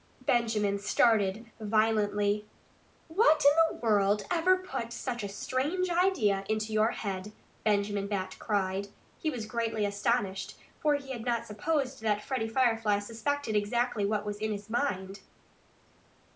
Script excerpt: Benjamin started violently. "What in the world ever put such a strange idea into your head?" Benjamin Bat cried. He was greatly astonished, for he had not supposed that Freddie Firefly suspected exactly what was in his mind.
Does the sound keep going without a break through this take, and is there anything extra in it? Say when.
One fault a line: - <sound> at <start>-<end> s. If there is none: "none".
none